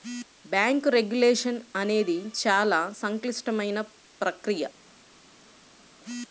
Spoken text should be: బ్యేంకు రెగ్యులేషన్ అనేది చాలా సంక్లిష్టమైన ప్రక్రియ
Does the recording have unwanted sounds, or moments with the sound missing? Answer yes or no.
no